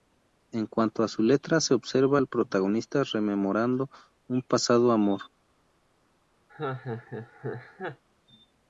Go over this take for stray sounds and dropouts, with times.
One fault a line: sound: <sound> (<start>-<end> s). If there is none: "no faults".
sound: laugh (6.5-8.0 s)